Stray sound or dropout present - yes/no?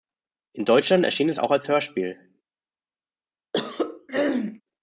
yes